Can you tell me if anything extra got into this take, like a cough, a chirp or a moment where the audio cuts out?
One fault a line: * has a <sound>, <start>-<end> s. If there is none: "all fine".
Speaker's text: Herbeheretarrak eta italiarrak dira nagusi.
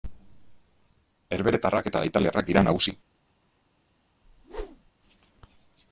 * has a whoosh, 4.2-4.9 s